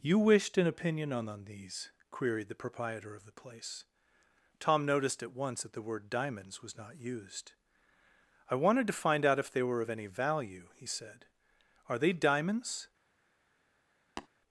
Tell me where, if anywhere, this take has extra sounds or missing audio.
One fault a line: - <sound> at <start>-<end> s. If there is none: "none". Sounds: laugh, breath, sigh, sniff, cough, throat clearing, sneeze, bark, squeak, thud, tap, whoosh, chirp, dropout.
- tap at 14.2-14.3 s